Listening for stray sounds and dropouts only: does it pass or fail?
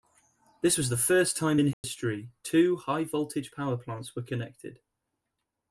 fail